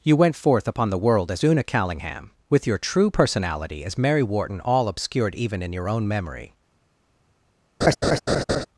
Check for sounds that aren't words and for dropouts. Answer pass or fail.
fail